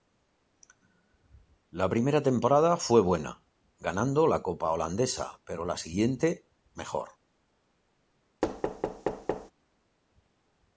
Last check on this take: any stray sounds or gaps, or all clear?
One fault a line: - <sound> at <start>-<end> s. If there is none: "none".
- thud at 8.4-9.5 s